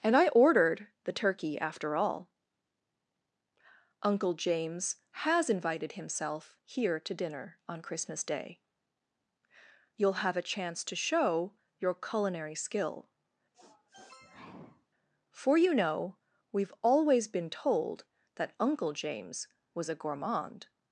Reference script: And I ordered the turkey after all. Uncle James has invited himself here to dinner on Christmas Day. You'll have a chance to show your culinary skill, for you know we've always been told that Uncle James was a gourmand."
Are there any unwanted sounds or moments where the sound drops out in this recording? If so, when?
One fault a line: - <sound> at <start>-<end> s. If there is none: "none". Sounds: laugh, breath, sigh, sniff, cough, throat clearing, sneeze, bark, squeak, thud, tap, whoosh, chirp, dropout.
- sniff at 13.5-14.9 s